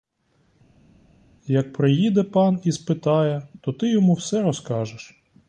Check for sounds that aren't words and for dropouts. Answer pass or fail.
pass